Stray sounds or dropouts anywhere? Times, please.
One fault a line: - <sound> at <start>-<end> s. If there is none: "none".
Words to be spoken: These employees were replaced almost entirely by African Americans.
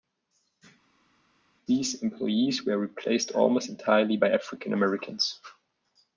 none